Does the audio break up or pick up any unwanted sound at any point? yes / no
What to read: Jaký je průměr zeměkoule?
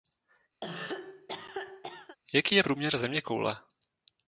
yes